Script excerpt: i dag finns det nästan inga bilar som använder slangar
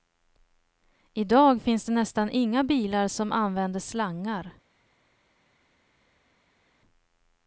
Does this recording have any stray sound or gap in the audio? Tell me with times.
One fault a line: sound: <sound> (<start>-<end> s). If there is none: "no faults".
no faults